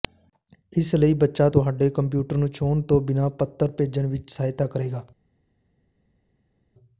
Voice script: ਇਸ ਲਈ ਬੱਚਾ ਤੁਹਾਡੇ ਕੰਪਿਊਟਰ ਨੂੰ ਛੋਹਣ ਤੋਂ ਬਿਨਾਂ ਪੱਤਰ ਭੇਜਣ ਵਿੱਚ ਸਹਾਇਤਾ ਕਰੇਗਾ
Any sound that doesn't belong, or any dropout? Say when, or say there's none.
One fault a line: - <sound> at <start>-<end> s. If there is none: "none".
none